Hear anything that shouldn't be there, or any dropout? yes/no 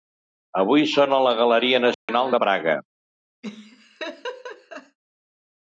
yes